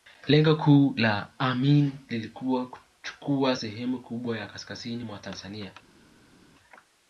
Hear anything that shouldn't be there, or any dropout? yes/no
no